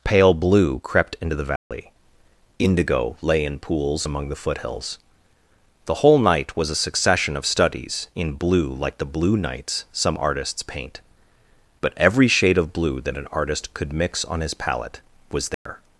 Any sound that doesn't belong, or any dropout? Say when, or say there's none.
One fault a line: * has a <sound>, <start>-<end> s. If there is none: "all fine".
* has a dropout, 1.6-1.7 s
* has a dropout, 15.5-15.7 s